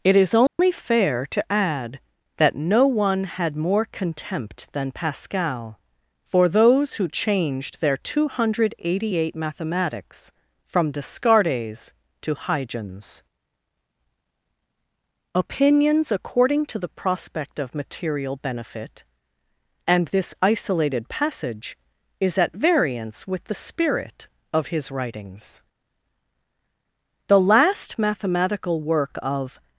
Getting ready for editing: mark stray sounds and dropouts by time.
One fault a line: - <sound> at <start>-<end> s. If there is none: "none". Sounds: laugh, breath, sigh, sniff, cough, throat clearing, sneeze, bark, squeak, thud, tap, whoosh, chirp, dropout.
- dropout at 0.5-0.6 s